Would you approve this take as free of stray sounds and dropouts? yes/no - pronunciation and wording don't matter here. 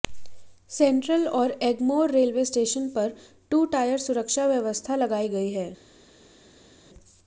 yes